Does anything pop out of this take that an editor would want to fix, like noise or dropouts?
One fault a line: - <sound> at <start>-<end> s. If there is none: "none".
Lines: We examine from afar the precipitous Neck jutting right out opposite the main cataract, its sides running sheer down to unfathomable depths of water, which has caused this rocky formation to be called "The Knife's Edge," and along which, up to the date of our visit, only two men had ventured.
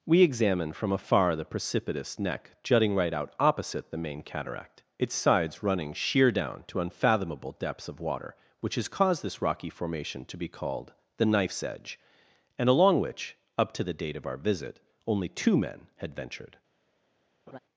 - laugh at 17.5-17.6 s